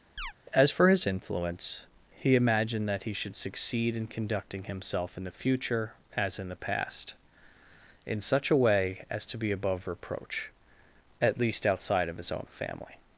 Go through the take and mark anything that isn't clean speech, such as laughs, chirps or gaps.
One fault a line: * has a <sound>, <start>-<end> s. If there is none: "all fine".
* has a chirp, 0.2-0.3 s